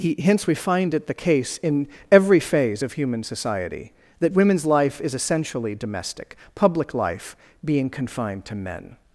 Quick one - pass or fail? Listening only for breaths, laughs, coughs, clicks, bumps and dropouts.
pass